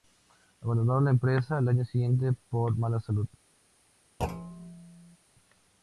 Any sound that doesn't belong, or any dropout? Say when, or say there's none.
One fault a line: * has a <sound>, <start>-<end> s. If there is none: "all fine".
* has a thud, 4.2-5.2 s